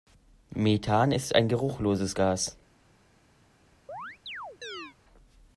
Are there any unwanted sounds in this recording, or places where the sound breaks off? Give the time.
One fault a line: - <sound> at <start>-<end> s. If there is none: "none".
- chirp at 3.9-5.0 s